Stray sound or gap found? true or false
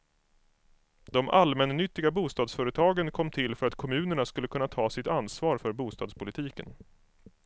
false